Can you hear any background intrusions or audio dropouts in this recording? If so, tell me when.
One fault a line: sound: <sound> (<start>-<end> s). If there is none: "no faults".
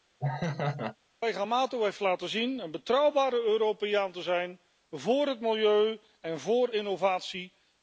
sound: laugh (0.2-1.0 s)